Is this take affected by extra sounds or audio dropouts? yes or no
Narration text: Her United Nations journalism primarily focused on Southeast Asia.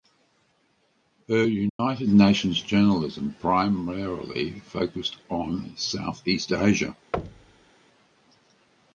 yes